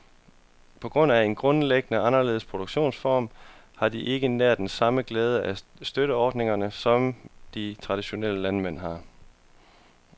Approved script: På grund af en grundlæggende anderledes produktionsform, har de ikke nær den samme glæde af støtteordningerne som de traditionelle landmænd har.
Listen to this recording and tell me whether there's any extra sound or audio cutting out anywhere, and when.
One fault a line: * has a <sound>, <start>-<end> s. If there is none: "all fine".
all fine